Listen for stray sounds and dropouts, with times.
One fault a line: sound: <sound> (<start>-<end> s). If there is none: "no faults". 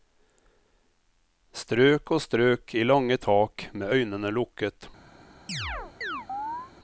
sound: chirp (5.5-6.7 s)